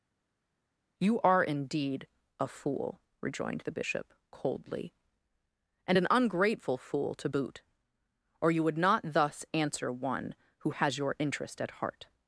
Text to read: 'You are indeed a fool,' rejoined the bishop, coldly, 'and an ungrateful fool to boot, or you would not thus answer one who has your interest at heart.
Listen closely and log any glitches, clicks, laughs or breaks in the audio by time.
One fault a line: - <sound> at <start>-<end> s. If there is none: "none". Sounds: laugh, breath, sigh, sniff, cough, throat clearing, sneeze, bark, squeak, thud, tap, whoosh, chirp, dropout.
none